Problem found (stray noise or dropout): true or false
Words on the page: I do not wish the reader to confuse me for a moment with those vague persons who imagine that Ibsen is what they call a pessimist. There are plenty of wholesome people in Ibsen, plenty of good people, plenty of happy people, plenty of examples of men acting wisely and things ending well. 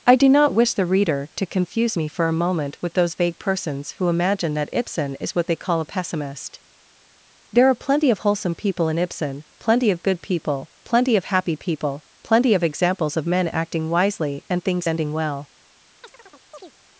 true